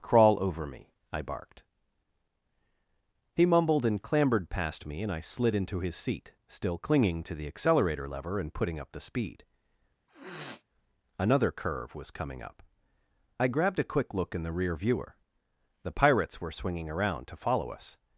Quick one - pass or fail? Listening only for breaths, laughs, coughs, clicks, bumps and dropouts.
fail